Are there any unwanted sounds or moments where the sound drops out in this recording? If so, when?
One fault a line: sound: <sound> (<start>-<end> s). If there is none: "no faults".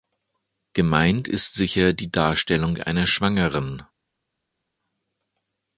no faults